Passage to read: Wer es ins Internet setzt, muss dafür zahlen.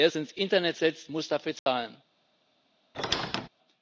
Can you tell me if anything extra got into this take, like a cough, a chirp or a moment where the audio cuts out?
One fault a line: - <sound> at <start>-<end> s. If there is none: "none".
- dropout at 1.6-1.7 s
- squeak at 2.9-3.5 s